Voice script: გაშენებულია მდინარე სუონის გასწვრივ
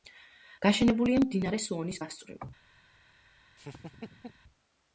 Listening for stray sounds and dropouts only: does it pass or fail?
fail